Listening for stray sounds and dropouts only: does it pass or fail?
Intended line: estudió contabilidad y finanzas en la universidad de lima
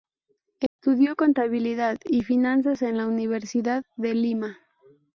fail